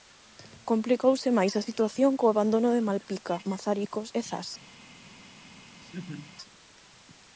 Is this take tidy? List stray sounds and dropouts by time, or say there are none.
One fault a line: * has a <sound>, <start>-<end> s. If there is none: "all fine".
* has a laugh, 5.8-6.3 s